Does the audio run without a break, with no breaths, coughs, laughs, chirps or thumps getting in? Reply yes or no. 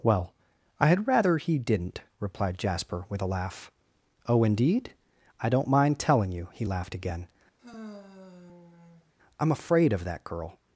no